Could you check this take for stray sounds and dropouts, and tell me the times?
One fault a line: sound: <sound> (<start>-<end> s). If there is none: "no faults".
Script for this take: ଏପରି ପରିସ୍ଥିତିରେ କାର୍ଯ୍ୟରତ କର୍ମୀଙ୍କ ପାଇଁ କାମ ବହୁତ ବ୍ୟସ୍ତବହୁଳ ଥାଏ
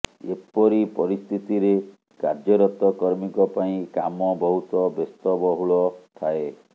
no faults